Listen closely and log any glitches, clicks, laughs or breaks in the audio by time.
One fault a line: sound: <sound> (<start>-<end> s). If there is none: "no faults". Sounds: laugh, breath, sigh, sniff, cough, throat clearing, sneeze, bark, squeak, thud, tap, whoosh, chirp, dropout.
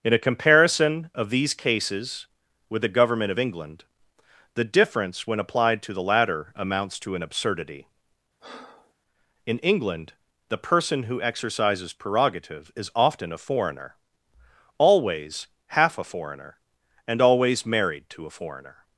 sound: breath (8.4-8.9 s)